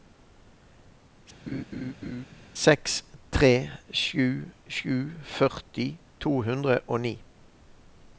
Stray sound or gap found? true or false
true